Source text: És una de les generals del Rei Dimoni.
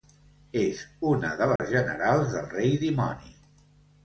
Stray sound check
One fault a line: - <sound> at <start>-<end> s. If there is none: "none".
- dropout at 1.6-1.6 s